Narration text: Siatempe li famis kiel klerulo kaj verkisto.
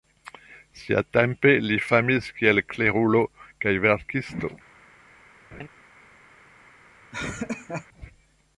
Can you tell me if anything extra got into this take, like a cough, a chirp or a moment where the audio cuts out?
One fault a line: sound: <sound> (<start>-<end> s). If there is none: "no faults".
sound: laugh (5.5-5.7 s)
sound: laugh (7.1-7.9 s)